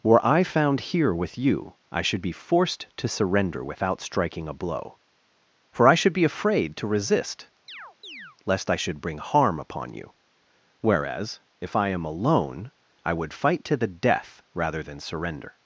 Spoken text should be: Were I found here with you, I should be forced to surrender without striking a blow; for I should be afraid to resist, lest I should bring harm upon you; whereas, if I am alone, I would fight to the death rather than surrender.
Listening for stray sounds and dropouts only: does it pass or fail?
fail